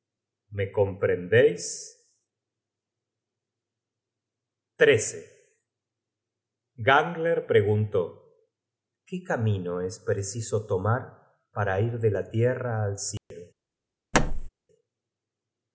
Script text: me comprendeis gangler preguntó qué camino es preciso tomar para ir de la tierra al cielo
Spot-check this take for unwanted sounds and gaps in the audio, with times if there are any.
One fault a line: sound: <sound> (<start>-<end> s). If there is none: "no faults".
sound: dropout (13.2-13.3 s)
sound: thud (14.1-14.5 s)